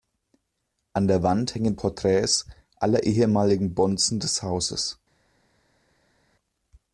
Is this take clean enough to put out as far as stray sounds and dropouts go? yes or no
yes